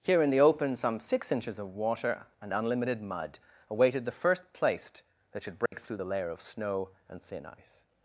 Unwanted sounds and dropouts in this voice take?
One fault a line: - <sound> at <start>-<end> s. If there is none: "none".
- dropout at 5.7-5.7 s